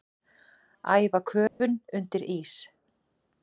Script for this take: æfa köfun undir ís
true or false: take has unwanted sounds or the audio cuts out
true